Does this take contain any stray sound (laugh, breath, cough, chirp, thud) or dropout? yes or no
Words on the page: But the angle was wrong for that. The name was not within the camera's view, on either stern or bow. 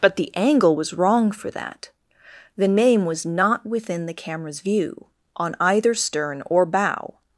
no